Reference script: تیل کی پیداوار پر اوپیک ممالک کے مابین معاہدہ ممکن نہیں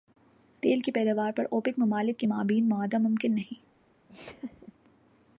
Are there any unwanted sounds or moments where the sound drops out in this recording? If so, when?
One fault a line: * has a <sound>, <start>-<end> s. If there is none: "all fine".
* has a laugh, 4.1-4.7 s